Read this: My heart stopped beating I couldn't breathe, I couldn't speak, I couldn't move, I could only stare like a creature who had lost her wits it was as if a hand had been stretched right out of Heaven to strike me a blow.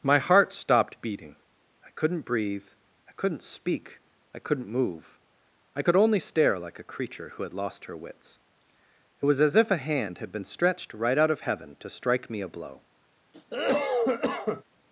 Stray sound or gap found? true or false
true